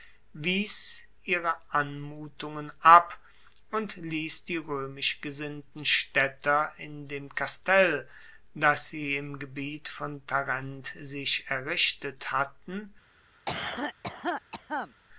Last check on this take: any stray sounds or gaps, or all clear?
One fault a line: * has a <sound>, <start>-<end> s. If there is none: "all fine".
* has a cough, 13.5-14.9 s